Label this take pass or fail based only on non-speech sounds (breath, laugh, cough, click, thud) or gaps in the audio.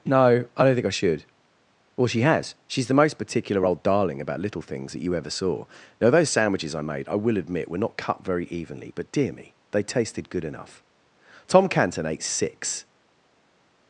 pass